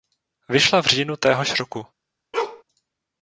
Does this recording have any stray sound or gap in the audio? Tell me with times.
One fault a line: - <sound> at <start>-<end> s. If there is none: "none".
- bark at 2.3-2.6 s